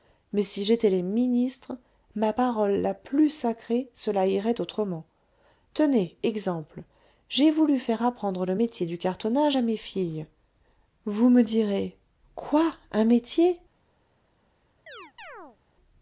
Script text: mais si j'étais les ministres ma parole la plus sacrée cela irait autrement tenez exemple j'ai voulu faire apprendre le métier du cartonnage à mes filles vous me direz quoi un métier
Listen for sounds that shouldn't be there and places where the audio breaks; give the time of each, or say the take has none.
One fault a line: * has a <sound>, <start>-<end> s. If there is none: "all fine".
* has a chirp, 14.9-15.6 s